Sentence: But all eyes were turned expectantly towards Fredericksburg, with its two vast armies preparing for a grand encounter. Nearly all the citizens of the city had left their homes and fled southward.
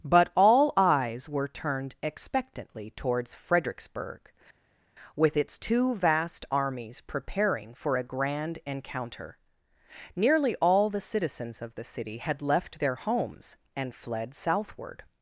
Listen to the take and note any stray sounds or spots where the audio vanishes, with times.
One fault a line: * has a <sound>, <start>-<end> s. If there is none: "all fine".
all fine